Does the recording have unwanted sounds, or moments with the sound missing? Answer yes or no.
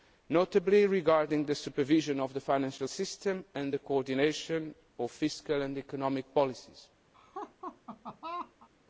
yes